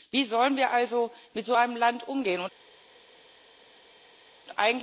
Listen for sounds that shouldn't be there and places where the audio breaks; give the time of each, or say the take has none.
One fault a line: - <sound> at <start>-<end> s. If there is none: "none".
none